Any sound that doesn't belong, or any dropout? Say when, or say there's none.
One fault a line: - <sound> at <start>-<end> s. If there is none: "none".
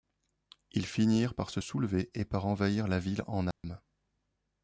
- dropout at 3.5-3.6 s